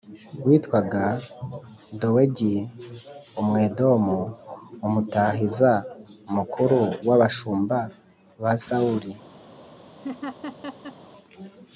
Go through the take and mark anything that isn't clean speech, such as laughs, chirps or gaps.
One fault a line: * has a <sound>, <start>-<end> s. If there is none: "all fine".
* has a laugh, 10.0-11.0 s